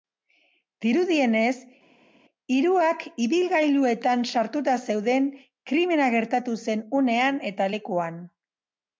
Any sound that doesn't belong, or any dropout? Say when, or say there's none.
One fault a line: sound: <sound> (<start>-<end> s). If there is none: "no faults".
no faults